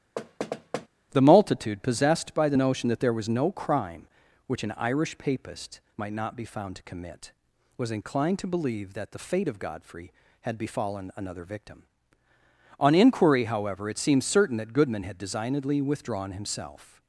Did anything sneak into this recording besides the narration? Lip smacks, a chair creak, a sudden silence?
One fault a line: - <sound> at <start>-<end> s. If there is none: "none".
- thud at 0.2-0.9 s